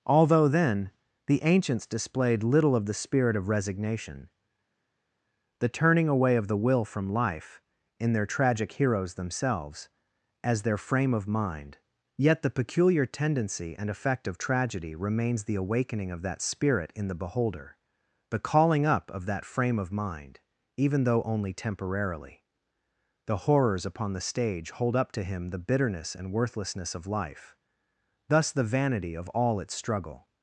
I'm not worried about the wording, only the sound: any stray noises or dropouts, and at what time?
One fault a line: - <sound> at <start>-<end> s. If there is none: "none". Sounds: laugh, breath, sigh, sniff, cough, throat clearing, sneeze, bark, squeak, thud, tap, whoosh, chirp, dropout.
none